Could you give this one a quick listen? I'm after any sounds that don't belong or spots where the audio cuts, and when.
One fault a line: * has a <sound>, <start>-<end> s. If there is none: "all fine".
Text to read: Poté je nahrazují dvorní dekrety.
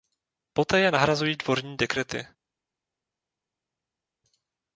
all fine